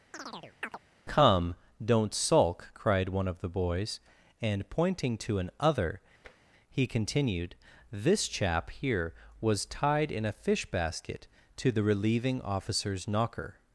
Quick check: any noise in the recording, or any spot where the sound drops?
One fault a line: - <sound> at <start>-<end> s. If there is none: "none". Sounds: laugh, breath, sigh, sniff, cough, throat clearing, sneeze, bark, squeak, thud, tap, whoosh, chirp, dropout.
- chirp at 0.1-0.8 s
- tap at 6.2-6.4 s